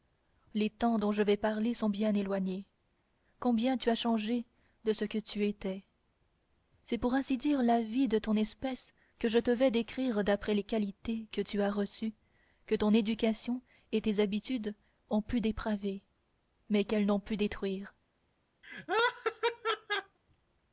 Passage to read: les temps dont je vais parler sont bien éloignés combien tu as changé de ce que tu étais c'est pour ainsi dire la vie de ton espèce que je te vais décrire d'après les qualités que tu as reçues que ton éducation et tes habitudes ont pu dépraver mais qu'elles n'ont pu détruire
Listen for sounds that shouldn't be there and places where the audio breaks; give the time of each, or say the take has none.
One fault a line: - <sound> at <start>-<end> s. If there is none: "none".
- laugh at 18.6-20.2 s